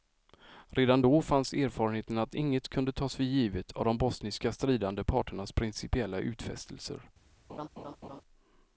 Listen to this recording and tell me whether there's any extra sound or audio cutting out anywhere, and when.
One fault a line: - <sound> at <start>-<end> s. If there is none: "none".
- laugh at 7.5-8.2 s